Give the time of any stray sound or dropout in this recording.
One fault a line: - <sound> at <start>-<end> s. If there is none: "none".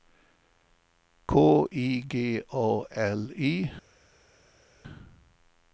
none